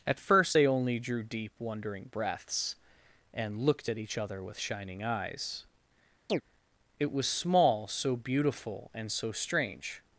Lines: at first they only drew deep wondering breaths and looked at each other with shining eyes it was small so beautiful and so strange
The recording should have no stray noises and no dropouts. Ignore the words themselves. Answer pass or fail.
fail